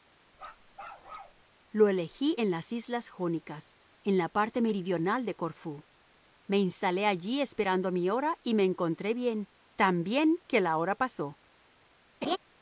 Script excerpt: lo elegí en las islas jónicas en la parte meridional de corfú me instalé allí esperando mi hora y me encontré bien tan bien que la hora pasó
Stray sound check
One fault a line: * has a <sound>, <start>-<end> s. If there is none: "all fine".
* has a bark, 0.3-1.4 s
* has a laugh, 12.2-12.4 s